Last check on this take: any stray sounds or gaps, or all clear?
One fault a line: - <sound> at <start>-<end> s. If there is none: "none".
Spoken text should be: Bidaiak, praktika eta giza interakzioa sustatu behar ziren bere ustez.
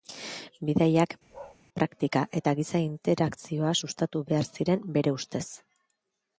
- bark at 1.3-1.6 s